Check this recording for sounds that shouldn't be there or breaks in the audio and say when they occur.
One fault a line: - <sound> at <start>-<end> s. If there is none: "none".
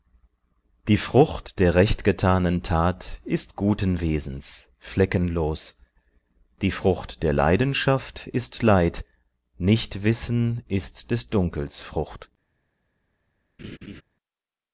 - laugh at 13.6-14.0 s